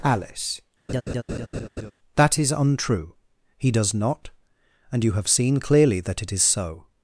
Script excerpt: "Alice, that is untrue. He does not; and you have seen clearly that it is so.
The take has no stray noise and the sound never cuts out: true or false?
false